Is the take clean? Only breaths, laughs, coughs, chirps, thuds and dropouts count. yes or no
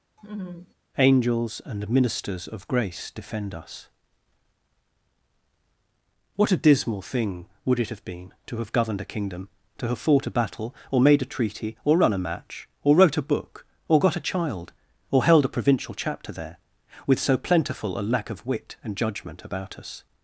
no